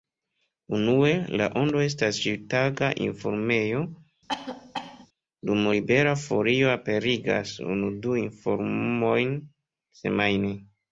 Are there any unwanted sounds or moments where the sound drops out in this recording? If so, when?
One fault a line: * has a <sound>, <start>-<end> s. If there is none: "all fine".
* has a cough, 4.3-5.1 s